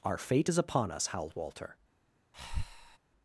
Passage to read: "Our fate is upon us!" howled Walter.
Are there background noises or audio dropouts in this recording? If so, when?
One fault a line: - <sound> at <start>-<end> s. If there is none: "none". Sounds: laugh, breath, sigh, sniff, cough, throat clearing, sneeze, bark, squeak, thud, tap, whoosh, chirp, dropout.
- breath at 2.3-3.0 s